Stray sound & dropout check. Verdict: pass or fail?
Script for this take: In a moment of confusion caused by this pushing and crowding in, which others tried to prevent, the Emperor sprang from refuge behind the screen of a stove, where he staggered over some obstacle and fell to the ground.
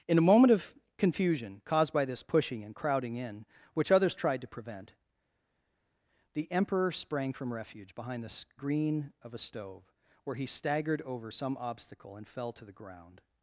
pass